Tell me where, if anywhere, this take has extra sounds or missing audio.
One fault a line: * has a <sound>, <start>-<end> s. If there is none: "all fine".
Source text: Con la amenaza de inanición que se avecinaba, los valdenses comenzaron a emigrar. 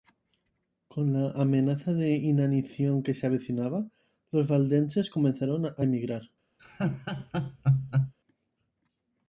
* has a laugh, 6.6-8.1 s